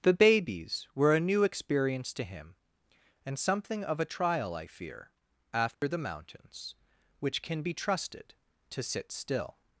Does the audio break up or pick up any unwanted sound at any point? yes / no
yes